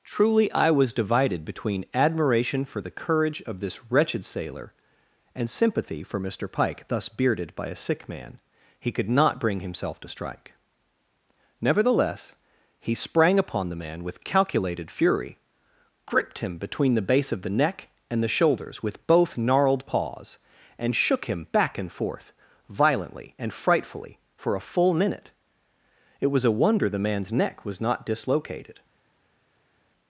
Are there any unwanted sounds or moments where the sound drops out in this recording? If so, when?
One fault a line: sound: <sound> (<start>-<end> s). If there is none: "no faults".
no faults